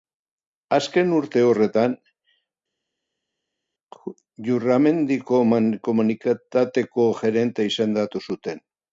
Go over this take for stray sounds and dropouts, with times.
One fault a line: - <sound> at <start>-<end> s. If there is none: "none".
none